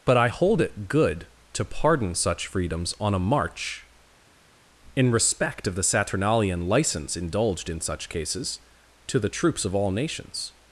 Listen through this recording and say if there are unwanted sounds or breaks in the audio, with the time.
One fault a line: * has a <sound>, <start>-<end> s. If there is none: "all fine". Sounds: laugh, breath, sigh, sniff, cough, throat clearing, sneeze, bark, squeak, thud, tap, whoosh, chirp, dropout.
all fine